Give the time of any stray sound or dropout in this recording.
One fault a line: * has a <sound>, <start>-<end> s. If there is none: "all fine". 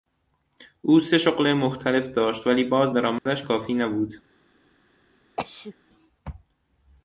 * has a dropout, 3.2-3.3 s
* has a sneeze, 5.4-5.7 s